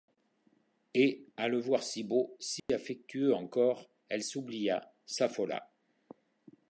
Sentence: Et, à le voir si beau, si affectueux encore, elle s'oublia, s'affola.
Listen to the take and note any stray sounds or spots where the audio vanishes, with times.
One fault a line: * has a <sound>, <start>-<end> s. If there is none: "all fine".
* has a dropout, 2.6-2.7 s